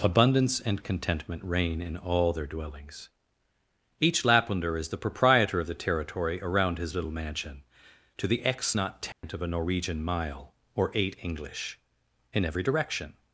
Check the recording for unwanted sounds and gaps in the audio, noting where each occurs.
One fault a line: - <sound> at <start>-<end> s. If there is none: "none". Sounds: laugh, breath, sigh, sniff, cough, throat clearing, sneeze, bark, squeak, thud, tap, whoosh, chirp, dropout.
- dropout at 9.1-9.2 s